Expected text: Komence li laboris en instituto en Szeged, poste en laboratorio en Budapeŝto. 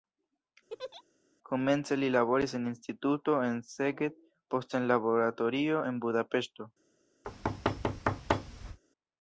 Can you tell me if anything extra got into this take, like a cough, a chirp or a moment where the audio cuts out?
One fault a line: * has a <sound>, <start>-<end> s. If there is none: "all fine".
* has a laugh, 0.7-1.0 s
* has a thud, 7.2-8.8 s